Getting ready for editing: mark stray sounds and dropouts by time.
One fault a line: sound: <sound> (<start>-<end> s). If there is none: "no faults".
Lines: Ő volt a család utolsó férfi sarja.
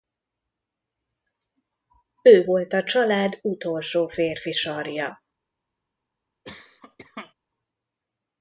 sound: cough (6.4-7.3 s)